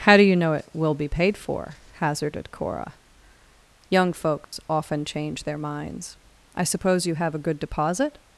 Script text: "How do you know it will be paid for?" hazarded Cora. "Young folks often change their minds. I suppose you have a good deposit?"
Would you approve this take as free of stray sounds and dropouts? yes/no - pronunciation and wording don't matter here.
no